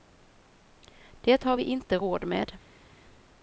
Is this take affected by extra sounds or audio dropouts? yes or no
no